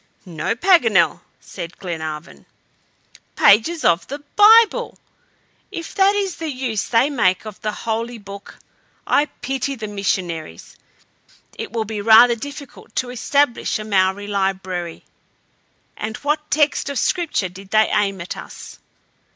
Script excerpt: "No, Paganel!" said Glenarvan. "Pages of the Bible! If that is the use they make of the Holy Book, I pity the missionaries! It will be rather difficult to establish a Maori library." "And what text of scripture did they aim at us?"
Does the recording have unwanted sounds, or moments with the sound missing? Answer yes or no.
no